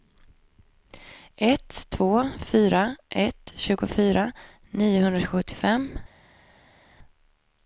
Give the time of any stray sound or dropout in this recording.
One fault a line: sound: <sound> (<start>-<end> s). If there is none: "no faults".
no faults